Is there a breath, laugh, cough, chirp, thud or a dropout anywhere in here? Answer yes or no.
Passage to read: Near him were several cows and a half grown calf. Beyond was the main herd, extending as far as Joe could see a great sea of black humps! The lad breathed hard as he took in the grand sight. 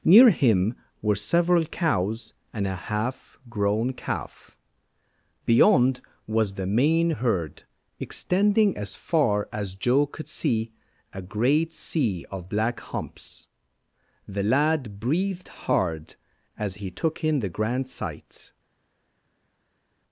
no